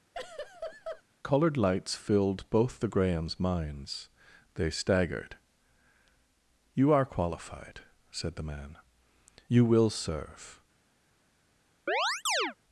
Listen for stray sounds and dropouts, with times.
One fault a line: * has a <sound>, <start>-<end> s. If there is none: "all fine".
* has a laugh, 0.1-1.0 s
* has a chirp, 11.9-12.5 s